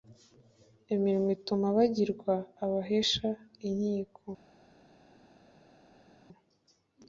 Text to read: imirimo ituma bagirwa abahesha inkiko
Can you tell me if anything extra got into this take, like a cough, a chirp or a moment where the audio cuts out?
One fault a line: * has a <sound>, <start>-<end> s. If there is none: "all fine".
all fine